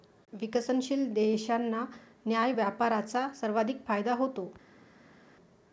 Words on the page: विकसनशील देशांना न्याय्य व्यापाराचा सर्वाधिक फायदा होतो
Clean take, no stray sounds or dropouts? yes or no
yes